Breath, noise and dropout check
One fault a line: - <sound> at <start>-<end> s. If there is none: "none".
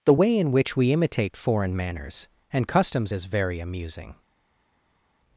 none